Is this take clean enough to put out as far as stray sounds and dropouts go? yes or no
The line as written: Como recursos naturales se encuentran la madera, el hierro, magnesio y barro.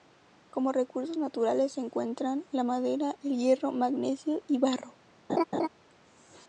no